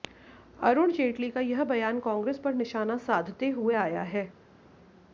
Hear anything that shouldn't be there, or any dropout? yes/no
no